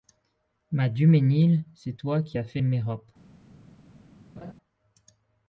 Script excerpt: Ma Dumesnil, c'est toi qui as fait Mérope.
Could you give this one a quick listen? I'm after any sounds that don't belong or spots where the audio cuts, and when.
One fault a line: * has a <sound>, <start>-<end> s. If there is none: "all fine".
* has a laugh, 4.4-4.5 s